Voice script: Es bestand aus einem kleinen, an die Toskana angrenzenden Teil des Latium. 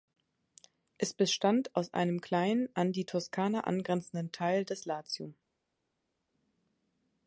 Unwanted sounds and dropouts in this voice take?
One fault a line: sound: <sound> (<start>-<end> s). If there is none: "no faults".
no faults